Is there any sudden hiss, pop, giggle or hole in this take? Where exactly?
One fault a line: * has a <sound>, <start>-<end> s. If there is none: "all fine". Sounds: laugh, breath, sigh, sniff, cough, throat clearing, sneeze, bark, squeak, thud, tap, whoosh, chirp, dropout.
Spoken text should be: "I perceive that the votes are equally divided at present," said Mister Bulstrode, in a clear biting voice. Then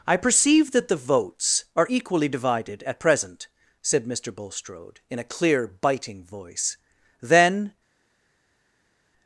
all fine